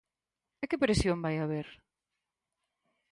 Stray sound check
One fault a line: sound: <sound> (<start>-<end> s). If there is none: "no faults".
no faults